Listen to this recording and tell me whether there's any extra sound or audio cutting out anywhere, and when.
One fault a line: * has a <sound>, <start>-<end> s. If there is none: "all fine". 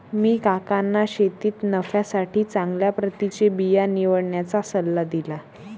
all fine